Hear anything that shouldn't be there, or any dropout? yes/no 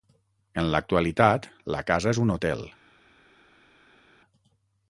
no